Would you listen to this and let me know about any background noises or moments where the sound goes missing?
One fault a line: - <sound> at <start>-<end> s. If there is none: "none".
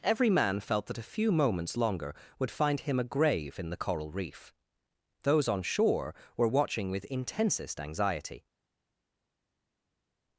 none